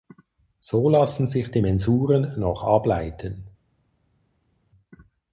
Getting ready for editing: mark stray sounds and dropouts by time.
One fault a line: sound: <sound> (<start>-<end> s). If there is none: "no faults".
no faults